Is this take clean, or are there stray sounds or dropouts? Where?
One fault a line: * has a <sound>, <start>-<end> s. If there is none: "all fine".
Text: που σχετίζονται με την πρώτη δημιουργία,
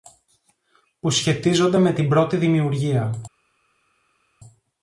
all fine